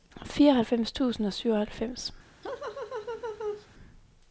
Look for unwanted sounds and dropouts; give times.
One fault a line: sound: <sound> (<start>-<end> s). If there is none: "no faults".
sound: laugh (2.4-3.7 s)